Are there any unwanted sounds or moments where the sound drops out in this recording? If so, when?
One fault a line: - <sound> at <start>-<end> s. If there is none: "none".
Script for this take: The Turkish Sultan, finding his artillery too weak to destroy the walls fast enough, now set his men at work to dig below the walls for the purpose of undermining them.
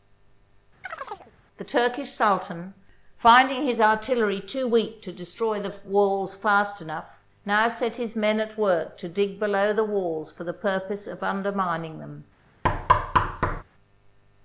- chirp at 0.8-1.3 s
- thud at 12.6-13.6 s